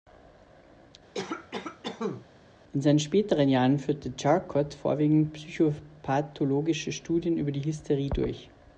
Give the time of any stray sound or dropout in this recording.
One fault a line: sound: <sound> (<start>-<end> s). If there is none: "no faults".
sound: cough (1.1-2.3 s)